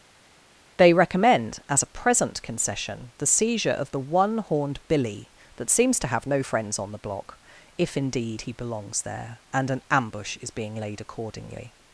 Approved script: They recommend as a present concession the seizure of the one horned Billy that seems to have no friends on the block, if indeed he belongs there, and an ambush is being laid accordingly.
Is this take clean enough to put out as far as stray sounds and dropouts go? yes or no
yes